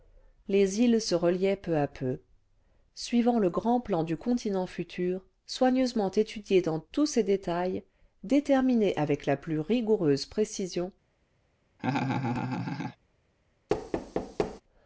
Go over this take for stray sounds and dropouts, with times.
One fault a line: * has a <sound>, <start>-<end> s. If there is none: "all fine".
* has a laugh, 11.8-13.0 s
* has a thud, 13.7-14.6 s